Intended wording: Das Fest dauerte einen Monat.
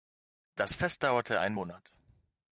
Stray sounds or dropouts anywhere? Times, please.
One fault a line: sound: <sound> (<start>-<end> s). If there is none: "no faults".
no faults